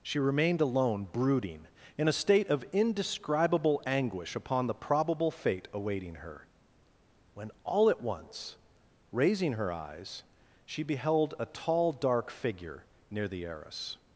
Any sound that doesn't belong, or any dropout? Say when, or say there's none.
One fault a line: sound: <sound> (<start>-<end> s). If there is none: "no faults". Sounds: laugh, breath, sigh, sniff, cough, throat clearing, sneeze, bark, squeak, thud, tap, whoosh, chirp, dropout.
no faults